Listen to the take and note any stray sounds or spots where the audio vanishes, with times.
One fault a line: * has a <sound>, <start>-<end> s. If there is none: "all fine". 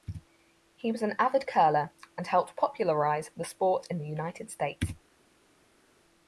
all fine